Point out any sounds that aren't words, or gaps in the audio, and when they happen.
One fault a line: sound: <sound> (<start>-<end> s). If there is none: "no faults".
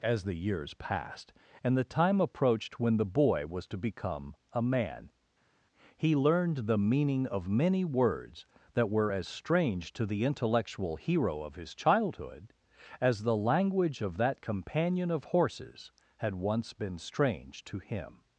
no faults